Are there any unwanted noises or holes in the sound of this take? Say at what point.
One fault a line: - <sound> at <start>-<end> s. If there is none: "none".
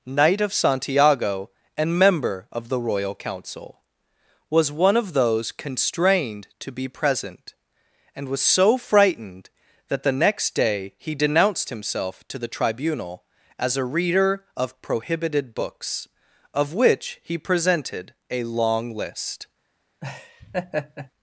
- laugh at 20.0-21.1 s